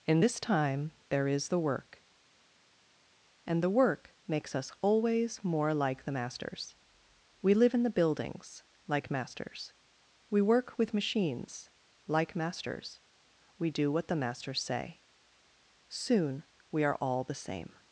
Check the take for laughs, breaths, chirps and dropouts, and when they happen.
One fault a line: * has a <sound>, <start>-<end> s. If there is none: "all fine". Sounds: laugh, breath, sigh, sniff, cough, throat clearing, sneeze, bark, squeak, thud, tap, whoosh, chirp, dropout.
all fine